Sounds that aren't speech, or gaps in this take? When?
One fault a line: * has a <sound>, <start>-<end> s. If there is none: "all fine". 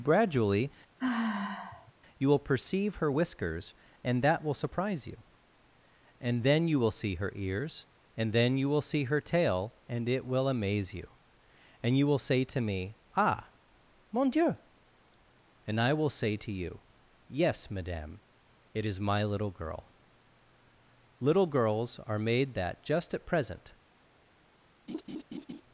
* has a sigh, 1.0-1.9 s
* has a laugh, 24.9-25.6 s